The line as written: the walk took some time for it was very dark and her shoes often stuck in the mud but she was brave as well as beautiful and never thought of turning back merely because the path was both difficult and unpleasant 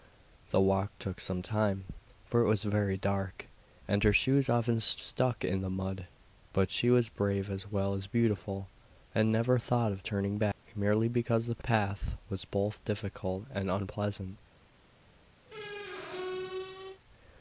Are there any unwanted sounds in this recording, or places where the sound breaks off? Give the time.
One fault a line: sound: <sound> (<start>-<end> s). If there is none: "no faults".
sound: dropout (10.5-10.6 s)
sound: squeak (15.5-17.0 s)